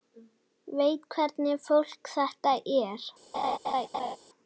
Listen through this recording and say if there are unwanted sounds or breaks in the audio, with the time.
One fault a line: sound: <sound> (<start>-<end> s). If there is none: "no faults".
sound: laugh (3.3-4.2 s)